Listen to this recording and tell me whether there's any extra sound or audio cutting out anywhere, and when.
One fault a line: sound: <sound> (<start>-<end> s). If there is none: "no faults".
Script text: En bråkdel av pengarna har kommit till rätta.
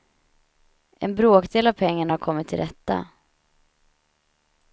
no faults